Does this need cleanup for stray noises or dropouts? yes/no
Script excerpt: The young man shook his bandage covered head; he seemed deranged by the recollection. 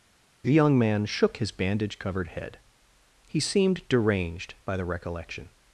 no